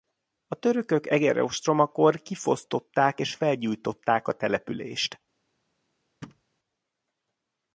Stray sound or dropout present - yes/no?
yes